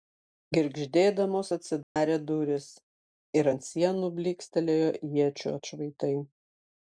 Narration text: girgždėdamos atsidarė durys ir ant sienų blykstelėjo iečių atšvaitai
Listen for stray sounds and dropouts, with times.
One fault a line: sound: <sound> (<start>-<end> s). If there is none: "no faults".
sound: dropout (1.8-2.0 s)